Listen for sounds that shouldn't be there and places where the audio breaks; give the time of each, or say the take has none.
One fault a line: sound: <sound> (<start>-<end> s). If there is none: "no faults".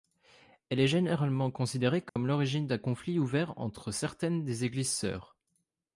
sound: dropout (2.1-2.2 s)